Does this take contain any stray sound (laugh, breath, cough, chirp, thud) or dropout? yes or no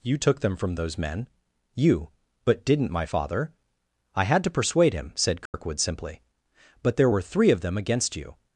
yes